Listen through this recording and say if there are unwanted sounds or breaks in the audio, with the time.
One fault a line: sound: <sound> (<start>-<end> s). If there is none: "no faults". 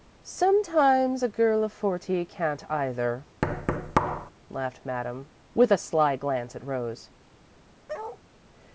sound: thud (3.4-4.3 s)
sound: bark (7.9-8.2 s)